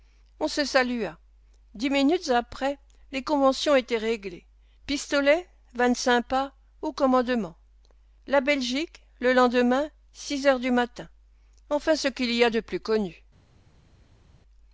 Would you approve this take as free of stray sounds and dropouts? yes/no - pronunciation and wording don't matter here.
yes